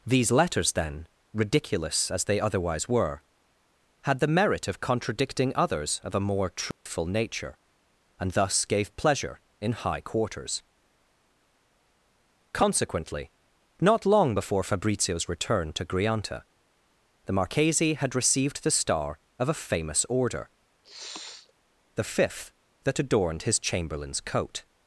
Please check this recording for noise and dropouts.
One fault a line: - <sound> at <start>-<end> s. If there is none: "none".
- dropout at 6.7-6.9 s
- sniff at 20.8-21.5 s